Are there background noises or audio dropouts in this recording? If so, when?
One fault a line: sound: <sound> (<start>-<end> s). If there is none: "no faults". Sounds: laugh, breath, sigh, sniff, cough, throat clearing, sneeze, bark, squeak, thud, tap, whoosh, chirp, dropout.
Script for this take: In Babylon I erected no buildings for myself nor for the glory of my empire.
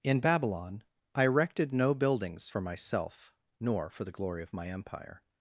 no faults